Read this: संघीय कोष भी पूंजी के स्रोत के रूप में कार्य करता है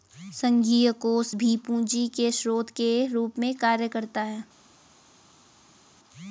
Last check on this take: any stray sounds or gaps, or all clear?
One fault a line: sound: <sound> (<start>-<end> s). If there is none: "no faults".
no faults